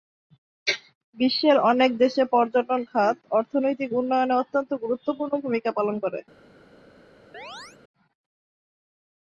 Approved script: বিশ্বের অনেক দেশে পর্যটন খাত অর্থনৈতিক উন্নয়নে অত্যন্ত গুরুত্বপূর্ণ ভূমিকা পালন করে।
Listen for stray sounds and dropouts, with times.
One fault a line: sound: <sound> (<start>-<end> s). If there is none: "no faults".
sound: chirp (7.3-7.8 s)